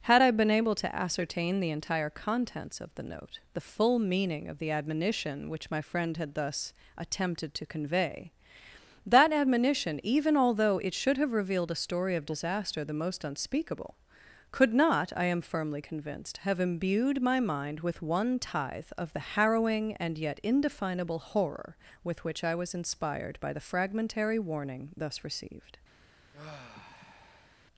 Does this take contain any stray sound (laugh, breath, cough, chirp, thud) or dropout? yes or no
yes